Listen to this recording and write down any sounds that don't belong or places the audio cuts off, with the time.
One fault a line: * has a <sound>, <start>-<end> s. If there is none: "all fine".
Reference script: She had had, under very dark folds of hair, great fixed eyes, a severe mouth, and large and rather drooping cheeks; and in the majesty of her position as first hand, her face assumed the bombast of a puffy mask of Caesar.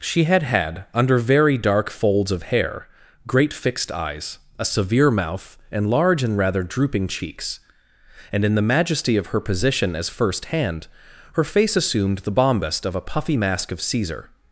all fine